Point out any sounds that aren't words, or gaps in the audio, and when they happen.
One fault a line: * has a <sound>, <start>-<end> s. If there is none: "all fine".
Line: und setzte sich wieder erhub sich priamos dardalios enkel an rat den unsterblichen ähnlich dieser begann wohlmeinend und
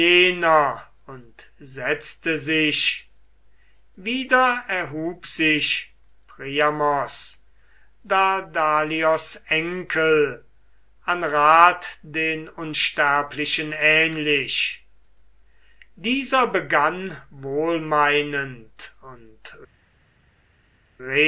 all fine